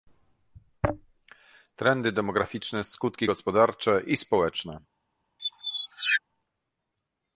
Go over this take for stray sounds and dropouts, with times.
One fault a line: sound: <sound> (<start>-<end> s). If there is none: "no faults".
sound: squeak (5.4-6.2 s)